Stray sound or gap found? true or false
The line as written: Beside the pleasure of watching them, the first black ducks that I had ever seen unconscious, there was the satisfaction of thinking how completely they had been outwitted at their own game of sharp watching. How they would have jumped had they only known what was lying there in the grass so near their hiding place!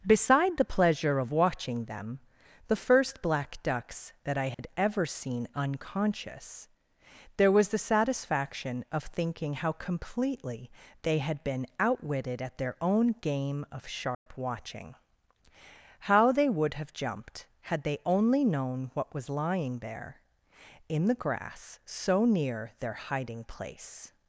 true